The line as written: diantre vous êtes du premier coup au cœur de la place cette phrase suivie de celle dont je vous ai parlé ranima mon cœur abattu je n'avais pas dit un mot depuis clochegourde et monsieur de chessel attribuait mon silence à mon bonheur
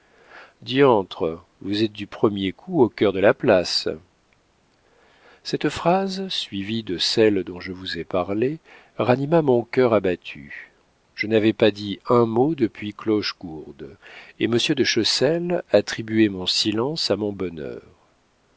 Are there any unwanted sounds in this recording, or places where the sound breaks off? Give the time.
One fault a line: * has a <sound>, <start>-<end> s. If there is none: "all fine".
all fine